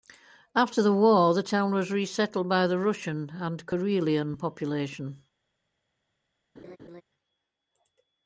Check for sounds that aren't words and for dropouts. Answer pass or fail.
fail